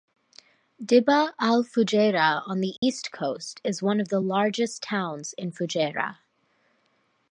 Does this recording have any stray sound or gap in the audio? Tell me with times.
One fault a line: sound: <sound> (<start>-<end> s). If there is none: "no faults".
sound: dropout (2.8-2.8 s)